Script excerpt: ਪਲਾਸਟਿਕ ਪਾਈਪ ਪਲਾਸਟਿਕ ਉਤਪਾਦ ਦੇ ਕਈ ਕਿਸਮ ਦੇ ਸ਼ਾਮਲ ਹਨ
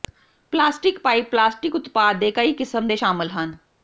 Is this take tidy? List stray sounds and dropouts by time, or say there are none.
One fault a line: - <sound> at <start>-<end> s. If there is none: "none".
none